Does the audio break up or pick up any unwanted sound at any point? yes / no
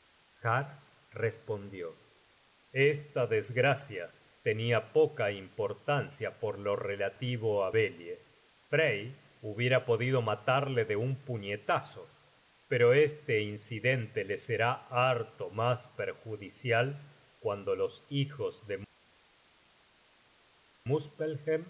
no